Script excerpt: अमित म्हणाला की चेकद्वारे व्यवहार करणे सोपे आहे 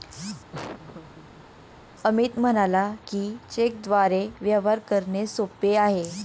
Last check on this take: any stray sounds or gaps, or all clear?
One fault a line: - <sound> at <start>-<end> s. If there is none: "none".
- laugh at 0.5-1.5 s